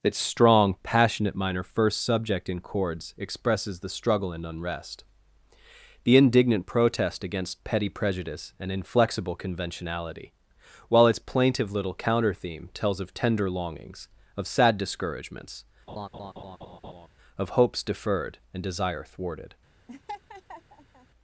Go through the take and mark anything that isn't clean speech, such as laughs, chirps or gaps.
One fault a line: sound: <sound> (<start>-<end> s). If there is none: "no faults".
sound: laugh (15.9-17.1 s)
sound: laugh (19.9-21.1 s)